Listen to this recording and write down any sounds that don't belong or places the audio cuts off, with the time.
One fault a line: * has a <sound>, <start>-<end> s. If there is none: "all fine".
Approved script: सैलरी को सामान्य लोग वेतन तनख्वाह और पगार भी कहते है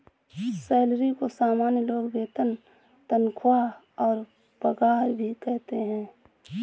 all fine